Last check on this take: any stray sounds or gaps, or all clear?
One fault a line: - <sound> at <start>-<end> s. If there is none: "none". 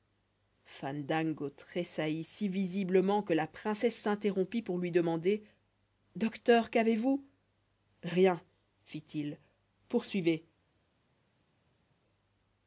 none